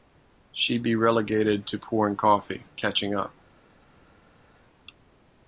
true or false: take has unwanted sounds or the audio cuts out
false